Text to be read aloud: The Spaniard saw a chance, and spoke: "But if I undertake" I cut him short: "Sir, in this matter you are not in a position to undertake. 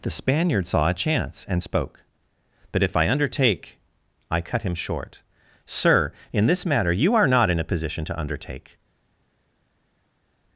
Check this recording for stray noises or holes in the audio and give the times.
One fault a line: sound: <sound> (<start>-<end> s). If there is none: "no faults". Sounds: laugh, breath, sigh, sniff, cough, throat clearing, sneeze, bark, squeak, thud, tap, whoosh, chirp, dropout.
no faults